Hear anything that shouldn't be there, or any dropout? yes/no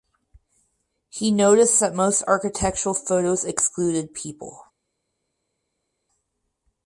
no